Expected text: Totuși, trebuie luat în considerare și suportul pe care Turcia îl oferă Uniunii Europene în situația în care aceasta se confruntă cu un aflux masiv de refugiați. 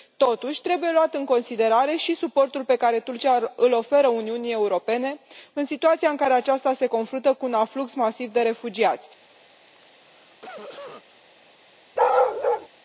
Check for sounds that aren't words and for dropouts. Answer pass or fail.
fail